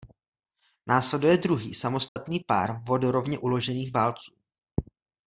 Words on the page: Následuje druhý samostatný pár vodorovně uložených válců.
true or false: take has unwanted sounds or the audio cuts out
true